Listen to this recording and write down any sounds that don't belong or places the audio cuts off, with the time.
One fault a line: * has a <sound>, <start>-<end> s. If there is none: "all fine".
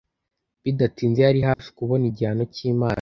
* has a dropout, 1.5-1.6 s